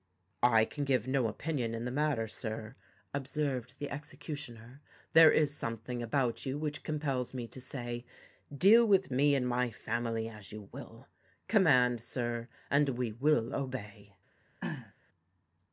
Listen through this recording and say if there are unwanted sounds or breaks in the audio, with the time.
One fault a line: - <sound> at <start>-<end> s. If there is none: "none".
- throat clearing at 14.6-14.9 s